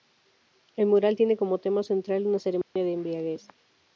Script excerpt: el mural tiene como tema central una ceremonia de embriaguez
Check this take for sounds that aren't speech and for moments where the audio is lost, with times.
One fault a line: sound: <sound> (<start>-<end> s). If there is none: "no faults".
sound: dropout (2.6-2.8 s)